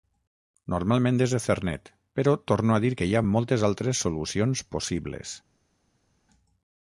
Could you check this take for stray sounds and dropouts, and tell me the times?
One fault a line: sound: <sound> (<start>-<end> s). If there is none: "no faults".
no faults